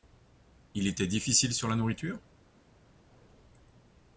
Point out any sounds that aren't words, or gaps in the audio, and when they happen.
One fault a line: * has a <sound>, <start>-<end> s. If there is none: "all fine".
all fine